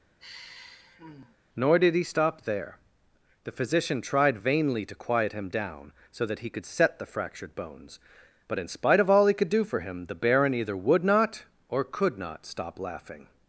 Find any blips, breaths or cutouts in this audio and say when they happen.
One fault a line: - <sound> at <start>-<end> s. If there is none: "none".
- sigh at 0.2-1.4 s